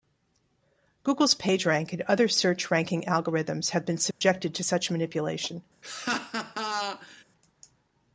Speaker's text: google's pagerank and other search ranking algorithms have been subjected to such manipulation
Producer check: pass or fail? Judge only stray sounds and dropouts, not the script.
fail